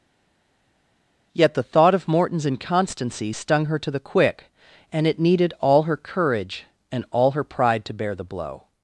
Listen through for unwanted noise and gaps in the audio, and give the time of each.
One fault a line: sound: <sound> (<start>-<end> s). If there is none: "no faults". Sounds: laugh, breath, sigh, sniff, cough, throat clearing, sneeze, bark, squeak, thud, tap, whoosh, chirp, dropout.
no faults